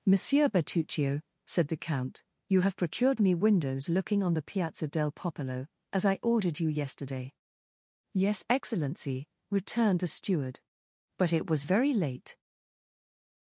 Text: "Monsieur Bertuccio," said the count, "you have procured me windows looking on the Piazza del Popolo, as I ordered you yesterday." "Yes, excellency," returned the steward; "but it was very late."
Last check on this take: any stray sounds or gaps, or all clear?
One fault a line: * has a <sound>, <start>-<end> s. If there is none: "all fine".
all fine